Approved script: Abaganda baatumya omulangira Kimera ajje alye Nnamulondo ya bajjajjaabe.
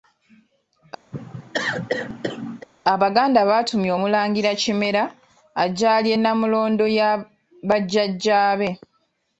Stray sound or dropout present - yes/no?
yes